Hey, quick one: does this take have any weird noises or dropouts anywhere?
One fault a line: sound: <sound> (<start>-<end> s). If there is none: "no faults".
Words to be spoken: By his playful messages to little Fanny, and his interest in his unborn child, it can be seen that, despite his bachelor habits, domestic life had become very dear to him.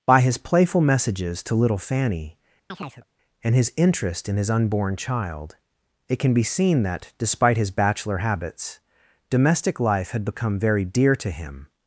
sound: chirp (2.7-3.1 s)